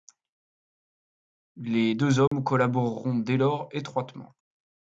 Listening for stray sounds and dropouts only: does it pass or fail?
fail